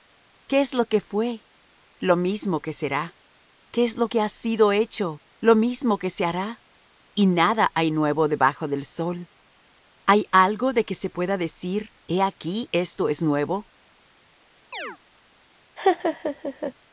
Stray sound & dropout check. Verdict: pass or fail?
fail